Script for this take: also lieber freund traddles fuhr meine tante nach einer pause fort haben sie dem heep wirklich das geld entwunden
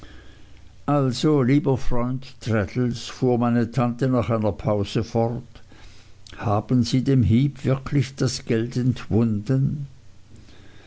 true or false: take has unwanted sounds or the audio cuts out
false